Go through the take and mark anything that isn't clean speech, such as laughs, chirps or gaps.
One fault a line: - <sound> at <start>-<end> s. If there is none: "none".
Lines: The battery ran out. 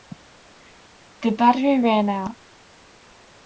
none